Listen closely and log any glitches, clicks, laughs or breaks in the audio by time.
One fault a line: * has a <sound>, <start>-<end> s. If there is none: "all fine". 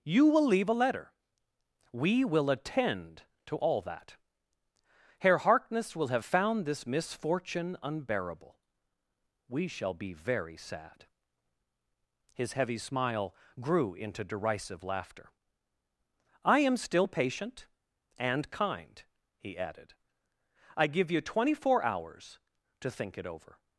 all fine